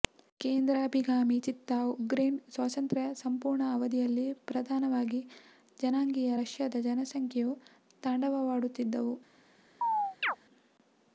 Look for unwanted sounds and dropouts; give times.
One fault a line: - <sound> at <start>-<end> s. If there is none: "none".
- chirp at 9.8-10.4 s